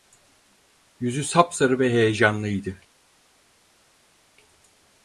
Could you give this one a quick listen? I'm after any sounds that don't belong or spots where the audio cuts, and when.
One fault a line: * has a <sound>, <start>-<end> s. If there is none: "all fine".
all fine